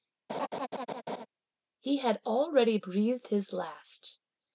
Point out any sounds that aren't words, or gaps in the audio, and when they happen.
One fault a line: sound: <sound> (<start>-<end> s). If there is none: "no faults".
sound: laugh (0.3-1.3 s)